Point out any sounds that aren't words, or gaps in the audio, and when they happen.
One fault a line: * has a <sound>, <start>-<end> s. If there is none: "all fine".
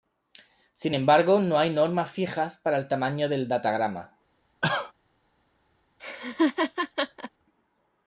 * has a cough, 4.6-4.9 s
* has a laugh, 6.0-7.3 s